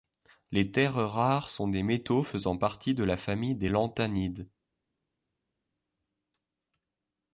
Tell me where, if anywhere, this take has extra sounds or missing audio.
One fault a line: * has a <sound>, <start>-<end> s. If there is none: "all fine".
all fine